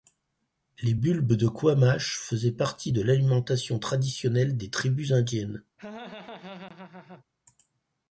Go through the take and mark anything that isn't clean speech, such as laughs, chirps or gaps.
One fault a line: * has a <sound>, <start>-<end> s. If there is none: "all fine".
* has a laugh, 5.8-7.2 s